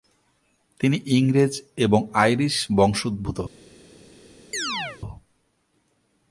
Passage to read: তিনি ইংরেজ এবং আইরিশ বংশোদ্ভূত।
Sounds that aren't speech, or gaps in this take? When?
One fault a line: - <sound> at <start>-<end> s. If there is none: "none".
- chirp at 4.5-5.0 s